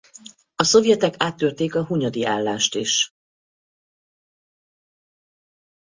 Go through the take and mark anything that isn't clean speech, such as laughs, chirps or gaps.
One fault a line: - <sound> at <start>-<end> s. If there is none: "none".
none